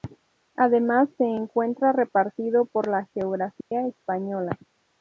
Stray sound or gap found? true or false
true